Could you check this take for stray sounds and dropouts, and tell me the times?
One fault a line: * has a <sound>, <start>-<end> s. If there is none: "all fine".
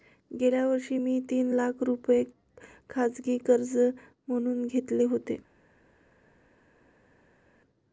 all fine